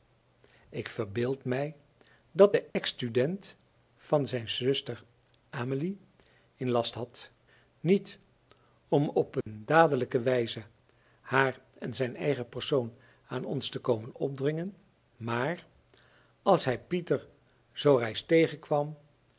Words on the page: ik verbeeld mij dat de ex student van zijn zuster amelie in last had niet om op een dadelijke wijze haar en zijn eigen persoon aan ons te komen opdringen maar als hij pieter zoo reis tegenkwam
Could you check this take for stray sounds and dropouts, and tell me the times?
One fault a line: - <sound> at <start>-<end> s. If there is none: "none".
- dropout at 2.7-2.8 s
- dropout at 9.4-9.5 s